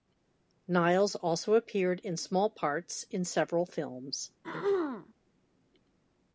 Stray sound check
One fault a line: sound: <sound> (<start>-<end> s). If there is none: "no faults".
sound: throat clearing (4.4-5.1 s)